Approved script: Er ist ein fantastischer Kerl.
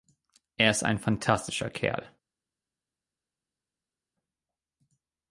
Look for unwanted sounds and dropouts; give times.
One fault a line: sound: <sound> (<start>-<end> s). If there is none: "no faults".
no faults